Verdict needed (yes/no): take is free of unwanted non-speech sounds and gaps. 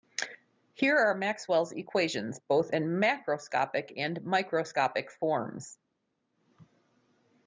yes